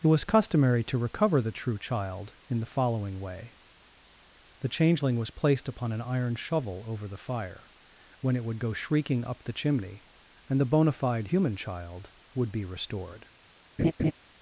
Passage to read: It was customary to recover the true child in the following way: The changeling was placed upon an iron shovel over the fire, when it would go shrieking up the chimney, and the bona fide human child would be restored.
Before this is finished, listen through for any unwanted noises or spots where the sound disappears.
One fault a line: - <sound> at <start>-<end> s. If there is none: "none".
- laugh at 13.8-14.1 s